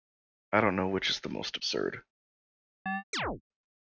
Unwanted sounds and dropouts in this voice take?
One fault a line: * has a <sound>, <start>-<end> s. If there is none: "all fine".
* has a chirp, 2.9-3.4 s